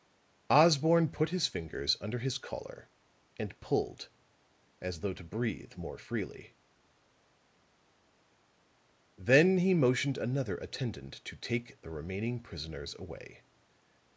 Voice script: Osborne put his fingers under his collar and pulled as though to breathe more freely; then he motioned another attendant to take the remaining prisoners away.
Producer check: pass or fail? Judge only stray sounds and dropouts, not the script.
pass